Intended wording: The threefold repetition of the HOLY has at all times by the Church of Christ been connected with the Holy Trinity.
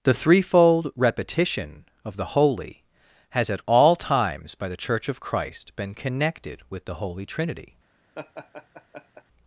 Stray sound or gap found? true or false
true